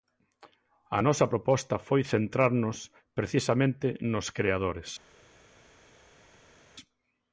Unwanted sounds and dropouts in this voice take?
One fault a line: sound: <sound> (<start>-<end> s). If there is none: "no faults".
no faults